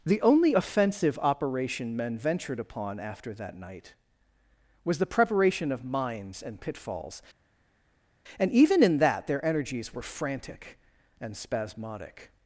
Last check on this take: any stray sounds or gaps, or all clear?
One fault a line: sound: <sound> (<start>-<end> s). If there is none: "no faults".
no faults